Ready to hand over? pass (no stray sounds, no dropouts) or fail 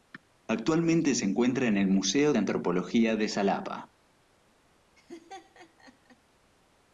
fail